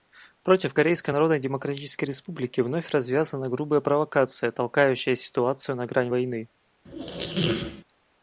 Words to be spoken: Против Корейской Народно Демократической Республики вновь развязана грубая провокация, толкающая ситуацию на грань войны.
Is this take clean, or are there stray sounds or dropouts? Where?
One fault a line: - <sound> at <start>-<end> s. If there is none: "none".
- squeak at 6.8-7.8 s